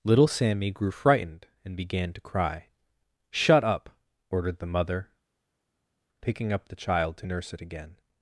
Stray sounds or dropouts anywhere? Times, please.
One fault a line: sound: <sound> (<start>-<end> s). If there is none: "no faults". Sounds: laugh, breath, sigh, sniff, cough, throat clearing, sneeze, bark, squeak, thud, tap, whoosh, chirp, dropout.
no faults